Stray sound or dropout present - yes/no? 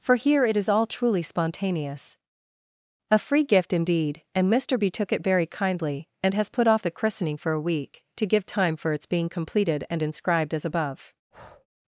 yes